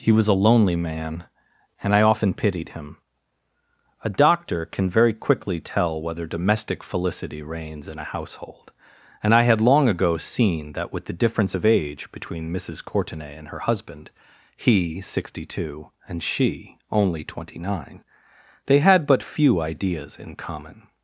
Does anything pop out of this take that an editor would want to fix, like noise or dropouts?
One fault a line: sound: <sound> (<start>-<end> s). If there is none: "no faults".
no faults